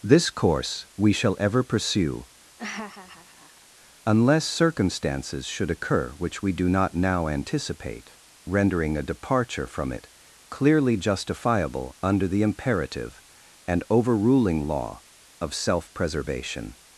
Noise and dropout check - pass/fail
fail